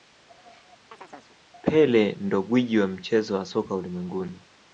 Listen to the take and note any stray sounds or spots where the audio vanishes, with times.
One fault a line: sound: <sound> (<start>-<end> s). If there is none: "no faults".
sound: chirp (0.9-1.4 s)